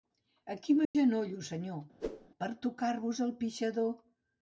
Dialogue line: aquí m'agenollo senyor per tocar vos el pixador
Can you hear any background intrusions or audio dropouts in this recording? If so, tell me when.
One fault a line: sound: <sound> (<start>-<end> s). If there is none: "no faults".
sound: dropout (0.8-0.9 s)
sound: whoosh (2.0-2.3 s)